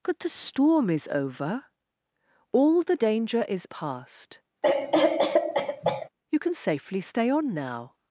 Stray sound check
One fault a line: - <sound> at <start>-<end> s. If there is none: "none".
- cough at 4.6-6.1 s